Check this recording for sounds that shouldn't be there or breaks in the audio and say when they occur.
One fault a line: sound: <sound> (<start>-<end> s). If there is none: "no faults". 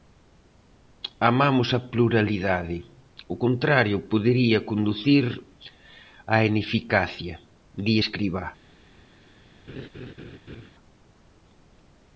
sound: laugh (9.7-10.7 s)